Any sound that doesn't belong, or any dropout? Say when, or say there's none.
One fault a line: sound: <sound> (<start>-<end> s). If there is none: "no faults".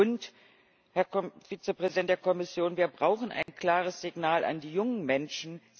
sound: dropout (3.4-3.5 s)